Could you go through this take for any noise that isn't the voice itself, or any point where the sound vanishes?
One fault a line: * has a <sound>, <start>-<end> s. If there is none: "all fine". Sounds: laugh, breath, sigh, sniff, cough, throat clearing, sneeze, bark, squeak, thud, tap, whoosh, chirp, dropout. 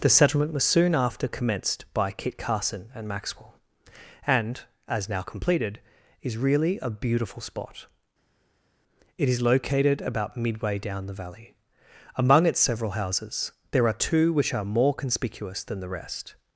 all fine